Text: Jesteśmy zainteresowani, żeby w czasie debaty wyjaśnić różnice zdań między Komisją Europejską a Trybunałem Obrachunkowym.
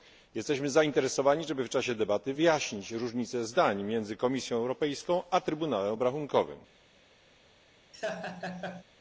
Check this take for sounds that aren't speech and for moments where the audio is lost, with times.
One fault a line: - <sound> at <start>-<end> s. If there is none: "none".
- laugh at 7.9-8.8 s